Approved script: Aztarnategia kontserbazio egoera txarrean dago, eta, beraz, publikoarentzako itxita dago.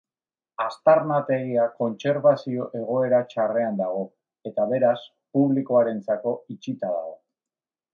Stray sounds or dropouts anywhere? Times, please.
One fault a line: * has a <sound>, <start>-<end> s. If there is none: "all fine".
all fine